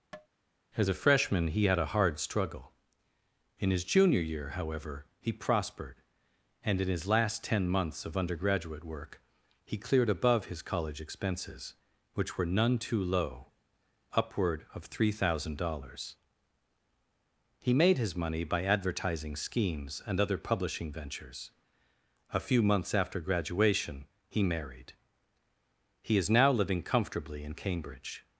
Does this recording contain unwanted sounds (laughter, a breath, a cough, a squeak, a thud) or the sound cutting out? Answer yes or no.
yes